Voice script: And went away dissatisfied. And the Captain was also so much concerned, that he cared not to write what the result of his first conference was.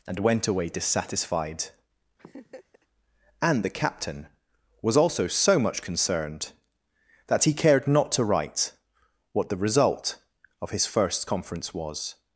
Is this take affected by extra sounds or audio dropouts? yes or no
yes